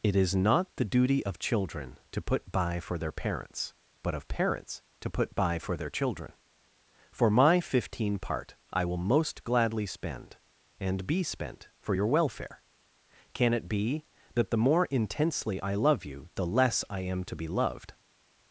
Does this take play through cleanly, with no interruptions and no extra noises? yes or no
yes